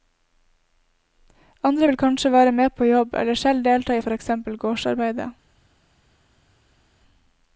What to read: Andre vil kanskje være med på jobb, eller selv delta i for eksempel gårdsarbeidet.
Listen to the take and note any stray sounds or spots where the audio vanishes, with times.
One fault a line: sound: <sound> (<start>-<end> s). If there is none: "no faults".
no faults